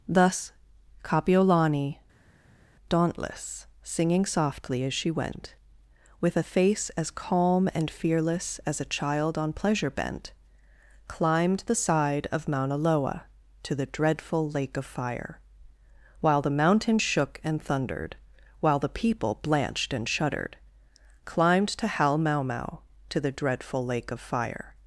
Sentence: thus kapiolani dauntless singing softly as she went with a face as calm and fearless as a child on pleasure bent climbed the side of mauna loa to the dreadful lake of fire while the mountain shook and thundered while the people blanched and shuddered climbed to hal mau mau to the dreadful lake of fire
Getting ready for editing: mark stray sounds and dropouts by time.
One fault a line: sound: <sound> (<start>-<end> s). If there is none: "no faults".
no faults